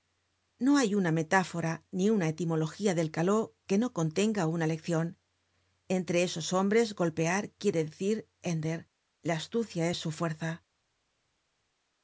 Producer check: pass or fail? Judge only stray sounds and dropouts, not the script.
pass